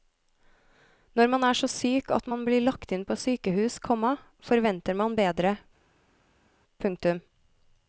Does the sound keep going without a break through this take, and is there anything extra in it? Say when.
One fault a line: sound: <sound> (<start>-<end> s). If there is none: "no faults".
no faults